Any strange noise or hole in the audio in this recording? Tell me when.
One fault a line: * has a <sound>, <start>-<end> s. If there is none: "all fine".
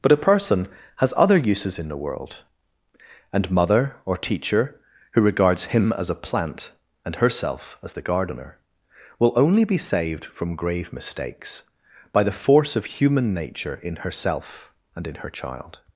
all fine